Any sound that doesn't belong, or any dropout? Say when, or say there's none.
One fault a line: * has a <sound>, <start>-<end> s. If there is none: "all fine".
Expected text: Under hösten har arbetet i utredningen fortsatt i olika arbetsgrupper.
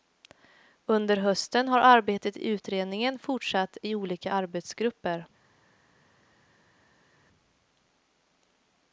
all fine